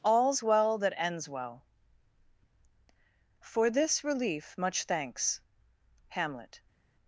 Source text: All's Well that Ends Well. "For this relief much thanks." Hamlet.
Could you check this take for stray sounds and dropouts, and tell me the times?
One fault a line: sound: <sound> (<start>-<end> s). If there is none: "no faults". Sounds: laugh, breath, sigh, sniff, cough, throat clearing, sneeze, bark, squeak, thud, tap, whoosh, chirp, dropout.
no faults